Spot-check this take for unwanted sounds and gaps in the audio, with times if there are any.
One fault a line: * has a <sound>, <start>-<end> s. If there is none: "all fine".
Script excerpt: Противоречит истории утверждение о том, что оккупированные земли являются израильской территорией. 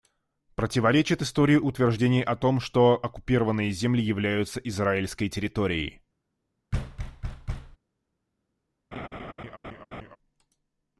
* has a thud, 6.7-7.8 s
* has a laugh, 8.9-10.2 s